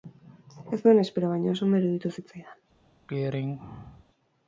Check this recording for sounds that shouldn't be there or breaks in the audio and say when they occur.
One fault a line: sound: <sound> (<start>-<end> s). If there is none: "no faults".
sound: throat clearing (3.1-4.0 s)